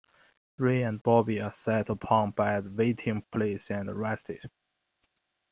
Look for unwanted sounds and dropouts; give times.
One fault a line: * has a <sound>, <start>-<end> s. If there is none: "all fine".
all fine